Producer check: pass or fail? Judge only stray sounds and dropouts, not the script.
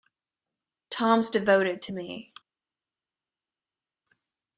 pass